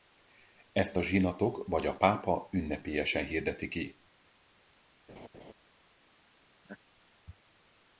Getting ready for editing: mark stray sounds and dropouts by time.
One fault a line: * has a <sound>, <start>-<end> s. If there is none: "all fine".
* has a laugh, 5.1-5.5 s
* has a laugh, 6.6-6.8 s